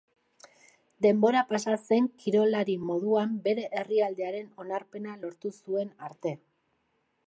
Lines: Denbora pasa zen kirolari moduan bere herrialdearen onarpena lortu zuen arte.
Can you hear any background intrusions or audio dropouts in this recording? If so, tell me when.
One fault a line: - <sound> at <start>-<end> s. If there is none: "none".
none